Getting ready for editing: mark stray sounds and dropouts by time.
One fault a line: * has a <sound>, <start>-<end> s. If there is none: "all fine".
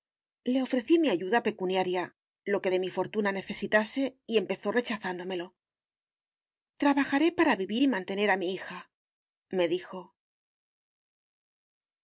all fine